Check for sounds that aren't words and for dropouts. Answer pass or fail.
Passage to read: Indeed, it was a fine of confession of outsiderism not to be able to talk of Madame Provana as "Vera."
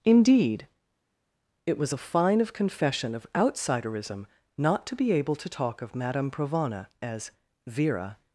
pass